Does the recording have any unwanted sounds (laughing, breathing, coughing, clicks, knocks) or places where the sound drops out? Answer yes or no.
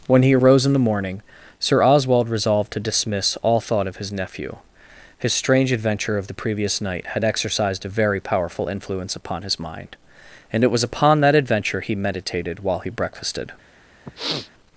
yes